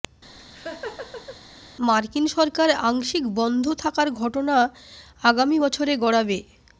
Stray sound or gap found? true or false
true